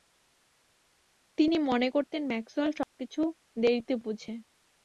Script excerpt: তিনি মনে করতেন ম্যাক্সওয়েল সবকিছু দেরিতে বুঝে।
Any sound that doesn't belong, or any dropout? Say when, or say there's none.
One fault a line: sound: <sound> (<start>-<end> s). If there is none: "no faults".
sound: dropout (2.8-3.0 s)